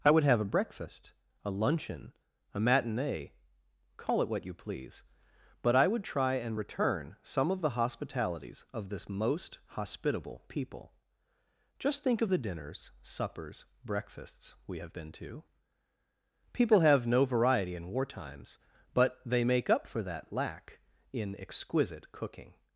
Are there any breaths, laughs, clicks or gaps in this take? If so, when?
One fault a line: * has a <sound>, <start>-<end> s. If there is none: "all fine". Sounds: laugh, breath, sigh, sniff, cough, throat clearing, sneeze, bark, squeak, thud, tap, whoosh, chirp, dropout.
all fine